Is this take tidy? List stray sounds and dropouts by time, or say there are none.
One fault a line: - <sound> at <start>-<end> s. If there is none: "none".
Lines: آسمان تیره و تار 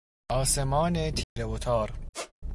- dropout at 1.2-1.4 s
- squeak at 2.1-2.3 s